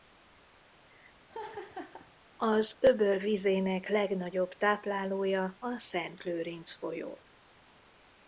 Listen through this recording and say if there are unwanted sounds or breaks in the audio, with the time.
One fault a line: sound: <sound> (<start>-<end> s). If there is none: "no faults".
sound: laugh (1.3-2.1 s)